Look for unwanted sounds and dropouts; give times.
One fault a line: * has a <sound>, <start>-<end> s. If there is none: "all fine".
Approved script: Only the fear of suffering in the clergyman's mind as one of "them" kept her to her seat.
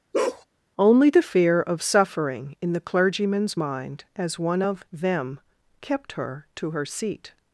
* has a bark, 0.1-0.5 s